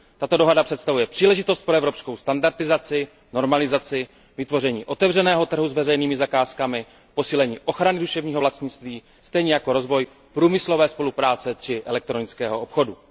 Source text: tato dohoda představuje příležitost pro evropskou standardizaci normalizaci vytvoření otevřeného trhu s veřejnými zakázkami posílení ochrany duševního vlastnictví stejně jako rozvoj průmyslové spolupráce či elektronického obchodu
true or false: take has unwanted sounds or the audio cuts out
false